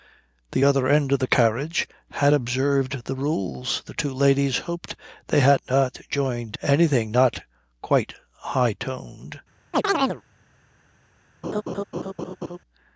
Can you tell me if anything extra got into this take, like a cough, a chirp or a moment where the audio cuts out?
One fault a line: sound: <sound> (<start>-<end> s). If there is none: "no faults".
sound: chirp (9.7-10.2 s)
sound: laugh (11.4-12.6 s)